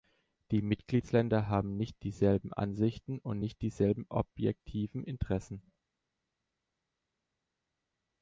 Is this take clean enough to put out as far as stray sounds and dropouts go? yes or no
yes